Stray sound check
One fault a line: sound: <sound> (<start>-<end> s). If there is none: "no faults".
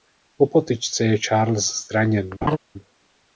sound: laugh (2.4-2.6 s)